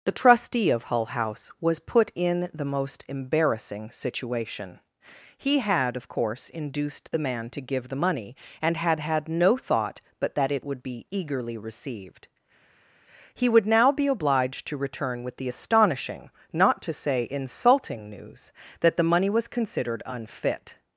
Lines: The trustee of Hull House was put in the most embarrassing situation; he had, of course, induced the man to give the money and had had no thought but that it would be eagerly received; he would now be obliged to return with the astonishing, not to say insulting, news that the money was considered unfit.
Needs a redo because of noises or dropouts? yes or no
no